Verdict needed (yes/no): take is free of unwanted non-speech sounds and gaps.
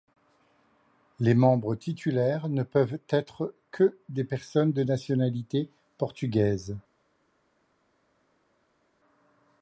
yes